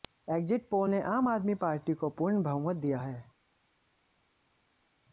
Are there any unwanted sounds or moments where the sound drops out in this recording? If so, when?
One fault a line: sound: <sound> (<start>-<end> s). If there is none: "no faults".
no faults